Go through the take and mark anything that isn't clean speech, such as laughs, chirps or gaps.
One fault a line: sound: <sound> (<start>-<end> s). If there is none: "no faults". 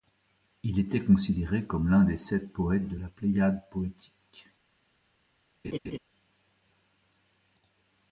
sound: laugh (5.6-6.0 s)